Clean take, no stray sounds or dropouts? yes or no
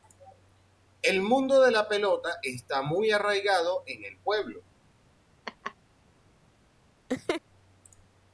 no